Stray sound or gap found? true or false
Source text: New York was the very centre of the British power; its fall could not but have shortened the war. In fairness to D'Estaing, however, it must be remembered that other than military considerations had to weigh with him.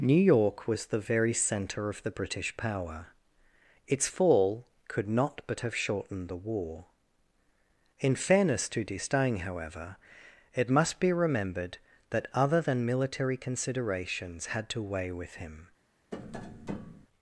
true